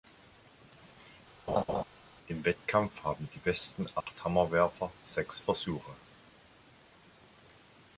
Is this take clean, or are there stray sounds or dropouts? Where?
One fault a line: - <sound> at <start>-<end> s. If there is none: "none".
- laugh at 1.5-1.8 s
- dropout at 4.0-4.1 s